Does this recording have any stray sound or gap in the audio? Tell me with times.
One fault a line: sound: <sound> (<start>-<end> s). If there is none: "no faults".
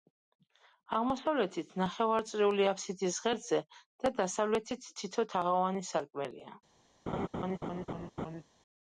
sound: laugh (7.1-8.4 s)